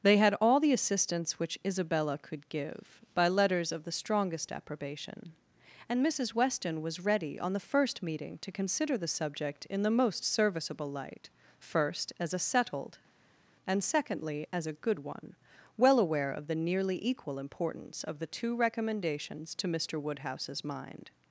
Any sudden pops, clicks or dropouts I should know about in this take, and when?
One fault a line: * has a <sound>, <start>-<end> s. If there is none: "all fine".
all fine